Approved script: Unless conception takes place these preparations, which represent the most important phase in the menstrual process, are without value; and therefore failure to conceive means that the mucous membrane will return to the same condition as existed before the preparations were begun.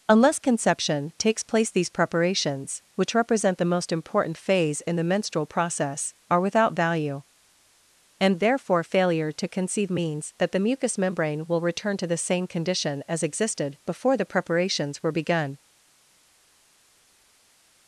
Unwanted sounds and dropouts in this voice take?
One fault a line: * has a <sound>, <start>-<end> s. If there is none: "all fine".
all fine